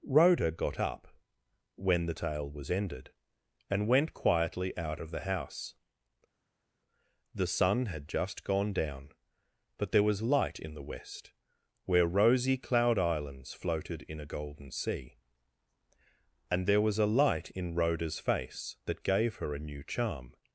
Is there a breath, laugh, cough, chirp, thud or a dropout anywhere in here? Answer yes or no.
no